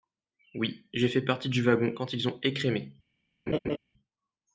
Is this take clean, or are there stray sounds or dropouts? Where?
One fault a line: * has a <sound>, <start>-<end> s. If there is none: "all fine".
* has a laugh, 3.5-3.8 s